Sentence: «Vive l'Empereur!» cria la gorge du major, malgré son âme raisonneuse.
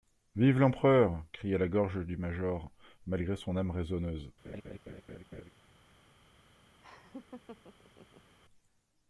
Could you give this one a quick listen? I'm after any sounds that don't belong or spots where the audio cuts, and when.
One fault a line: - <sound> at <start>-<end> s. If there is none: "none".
- laugh at 4.4-5.5 s
- laugh at 6.8-8.4 s